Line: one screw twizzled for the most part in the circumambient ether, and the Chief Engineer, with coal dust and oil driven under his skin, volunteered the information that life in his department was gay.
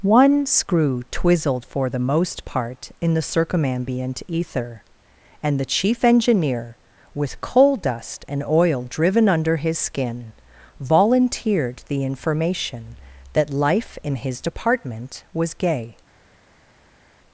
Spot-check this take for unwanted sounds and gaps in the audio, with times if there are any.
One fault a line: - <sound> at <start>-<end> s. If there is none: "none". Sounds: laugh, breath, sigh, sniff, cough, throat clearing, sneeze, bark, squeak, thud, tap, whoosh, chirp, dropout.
none